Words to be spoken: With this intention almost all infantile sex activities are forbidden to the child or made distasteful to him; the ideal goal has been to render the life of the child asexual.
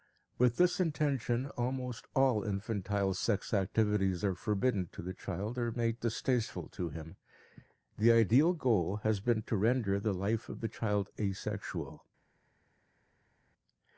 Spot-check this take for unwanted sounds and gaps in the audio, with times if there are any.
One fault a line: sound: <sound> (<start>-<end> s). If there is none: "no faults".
no faults